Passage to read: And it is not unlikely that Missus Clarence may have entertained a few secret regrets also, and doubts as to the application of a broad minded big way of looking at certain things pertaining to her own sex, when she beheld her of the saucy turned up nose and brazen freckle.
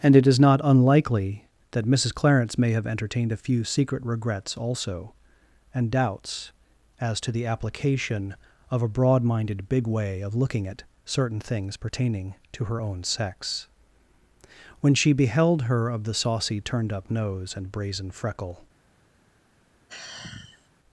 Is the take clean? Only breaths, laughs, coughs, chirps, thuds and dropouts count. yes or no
no